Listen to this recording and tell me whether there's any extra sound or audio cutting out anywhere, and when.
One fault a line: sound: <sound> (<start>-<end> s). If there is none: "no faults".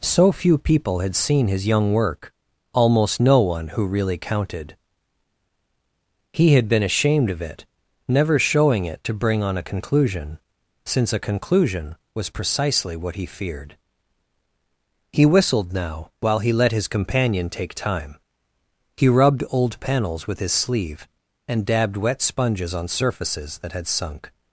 no faults